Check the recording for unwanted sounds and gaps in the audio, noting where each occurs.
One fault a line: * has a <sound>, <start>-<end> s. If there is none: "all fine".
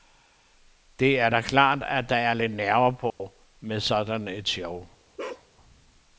* has a dropout, 3.1-3.2 s
* has a bark, 5.2-5.5 s